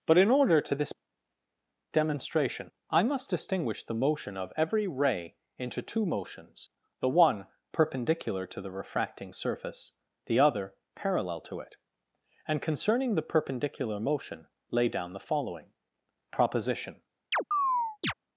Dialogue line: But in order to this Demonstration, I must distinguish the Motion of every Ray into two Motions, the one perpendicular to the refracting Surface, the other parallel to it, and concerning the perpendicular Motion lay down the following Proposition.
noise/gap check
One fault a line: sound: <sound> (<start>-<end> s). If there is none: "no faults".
sound: chirp (17.3-18.1 s)